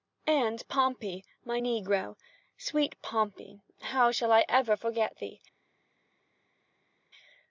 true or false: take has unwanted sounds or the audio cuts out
false